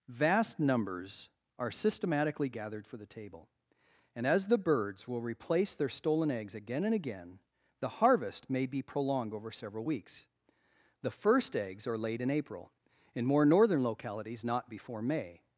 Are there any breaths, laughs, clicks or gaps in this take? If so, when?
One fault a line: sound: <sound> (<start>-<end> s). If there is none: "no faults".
no faults